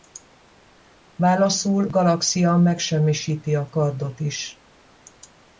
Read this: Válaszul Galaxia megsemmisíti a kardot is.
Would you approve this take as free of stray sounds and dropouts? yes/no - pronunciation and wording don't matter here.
yes